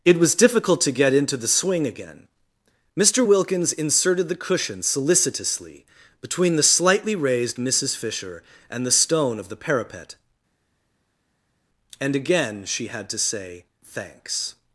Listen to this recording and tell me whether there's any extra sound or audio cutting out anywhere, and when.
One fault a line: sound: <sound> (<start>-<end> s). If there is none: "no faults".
no faults